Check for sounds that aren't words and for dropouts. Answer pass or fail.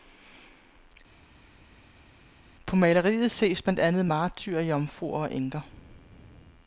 pass